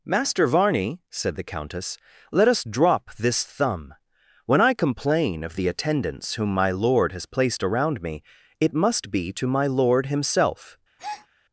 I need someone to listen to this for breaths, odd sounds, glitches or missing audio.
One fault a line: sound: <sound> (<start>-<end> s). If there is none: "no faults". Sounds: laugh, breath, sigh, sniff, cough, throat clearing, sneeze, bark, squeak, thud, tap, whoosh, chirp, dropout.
sound: breath (11.0-11.3 s)